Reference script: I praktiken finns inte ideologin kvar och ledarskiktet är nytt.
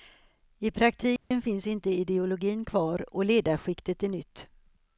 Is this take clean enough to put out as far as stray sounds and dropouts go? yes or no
no